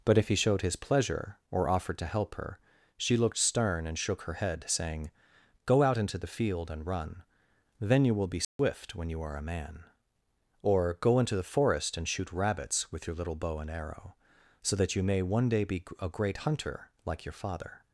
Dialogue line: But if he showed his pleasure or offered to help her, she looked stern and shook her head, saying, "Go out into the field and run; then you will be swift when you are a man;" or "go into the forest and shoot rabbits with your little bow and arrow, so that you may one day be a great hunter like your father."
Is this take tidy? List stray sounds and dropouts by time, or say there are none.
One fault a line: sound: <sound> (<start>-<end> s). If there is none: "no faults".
sound: dropout (8.4-8.6 s)